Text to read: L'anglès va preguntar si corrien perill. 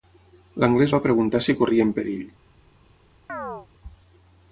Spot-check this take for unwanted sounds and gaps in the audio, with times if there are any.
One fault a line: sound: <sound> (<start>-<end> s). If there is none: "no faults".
sound: chirp (3.3-3.7 s)